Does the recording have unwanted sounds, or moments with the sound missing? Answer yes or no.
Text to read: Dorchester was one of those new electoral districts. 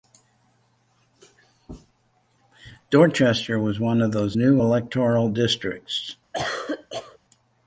yes